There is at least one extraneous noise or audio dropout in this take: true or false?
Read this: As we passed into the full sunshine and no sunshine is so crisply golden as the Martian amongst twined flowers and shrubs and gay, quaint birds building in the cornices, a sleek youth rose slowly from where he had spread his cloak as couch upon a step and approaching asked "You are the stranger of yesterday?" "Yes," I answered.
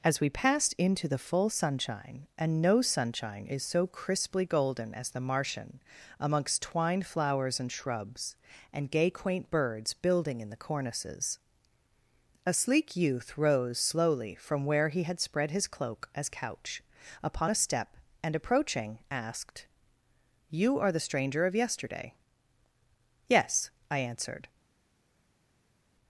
false